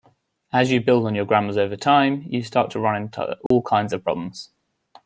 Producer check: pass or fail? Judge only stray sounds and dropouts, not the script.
fail